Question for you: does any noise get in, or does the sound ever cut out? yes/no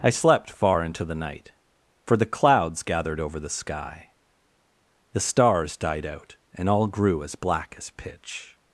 no